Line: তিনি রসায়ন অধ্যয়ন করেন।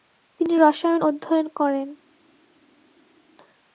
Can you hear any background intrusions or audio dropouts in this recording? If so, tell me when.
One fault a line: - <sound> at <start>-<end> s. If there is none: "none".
none